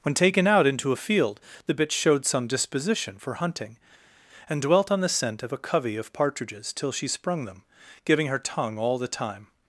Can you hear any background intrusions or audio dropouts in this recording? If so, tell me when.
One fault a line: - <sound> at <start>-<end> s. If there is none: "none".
none